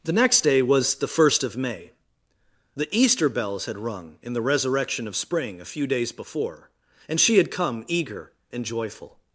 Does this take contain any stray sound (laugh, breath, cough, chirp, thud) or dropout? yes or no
no